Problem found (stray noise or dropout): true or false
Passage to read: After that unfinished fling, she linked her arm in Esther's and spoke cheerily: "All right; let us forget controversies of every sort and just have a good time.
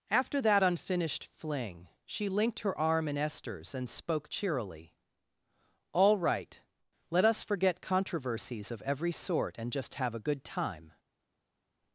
false